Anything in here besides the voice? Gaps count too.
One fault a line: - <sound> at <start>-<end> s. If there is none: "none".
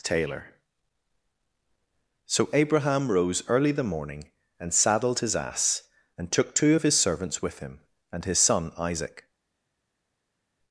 none